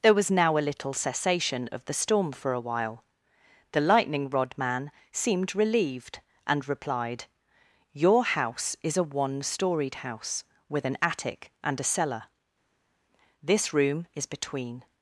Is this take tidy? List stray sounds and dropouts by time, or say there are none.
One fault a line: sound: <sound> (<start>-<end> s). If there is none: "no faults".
no faults